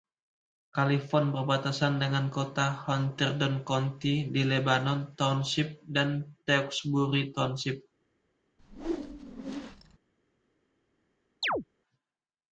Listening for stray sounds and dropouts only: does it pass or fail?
fail